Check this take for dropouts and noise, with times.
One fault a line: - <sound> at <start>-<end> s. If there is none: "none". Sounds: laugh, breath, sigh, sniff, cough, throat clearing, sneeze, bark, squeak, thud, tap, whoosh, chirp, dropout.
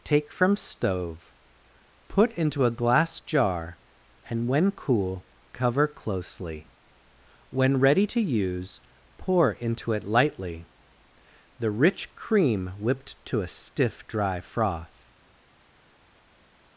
none